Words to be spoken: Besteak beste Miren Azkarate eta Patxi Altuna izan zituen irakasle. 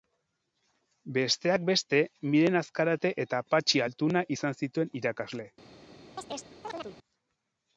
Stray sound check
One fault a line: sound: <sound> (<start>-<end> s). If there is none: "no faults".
sound: chirp (6.2-7.0 s)